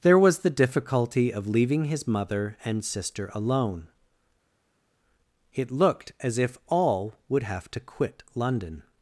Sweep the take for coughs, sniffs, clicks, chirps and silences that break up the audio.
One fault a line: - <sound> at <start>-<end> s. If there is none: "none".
none